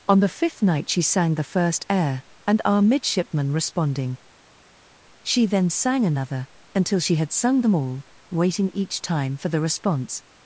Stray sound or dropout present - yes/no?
no